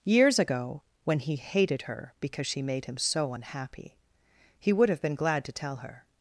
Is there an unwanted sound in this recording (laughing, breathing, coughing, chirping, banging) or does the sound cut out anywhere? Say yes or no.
no